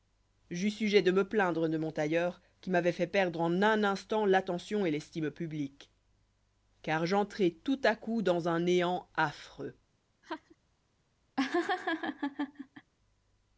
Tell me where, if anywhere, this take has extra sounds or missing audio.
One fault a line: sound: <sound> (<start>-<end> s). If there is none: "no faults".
sound: laugh (10.2-10.6 s)
sound: laugh (11.4-12.9 s)